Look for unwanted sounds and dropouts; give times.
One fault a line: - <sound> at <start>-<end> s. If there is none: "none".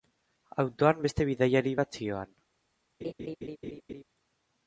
- laugh at 3.0-4.0 s